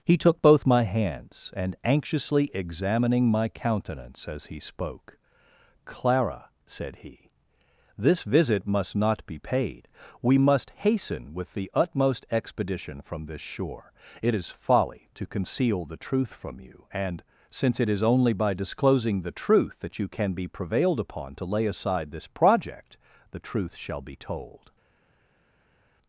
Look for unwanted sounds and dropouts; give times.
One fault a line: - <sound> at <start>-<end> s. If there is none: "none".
none